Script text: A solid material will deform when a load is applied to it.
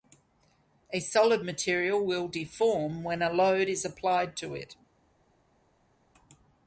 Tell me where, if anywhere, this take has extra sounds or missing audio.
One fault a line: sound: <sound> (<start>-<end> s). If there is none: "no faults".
no faults